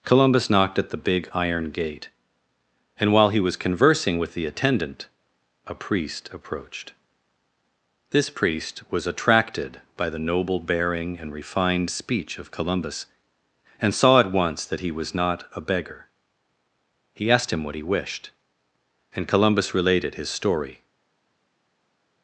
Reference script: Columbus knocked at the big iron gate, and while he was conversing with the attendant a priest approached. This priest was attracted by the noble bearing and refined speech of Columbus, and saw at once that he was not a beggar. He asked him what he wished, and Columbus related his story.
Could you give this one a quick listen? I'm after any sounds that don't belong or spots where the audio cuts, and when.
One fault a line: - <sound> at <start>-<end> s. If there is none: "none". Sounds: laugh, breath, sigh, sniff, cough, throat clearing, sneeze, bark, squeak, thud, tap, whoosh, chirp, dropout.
none